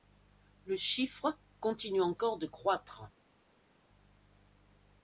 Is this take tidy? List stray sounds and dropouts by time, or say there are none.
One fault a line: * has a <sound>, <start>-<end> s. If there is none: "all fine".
all fine